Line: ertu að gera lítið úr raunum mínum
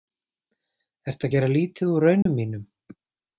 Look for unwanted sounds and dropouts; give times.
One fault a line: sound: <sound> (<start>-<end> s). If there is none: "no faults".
sound: dropout (2.2-2.3 s)